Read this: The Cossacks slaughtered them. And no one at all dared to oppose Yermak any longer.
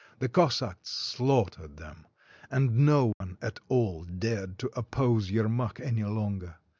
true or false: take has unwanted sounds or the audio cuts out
true